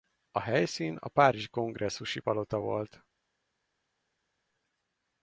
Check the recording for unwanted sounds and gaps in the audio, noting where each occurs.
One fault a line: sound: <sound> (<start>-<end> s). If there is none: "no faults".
no faults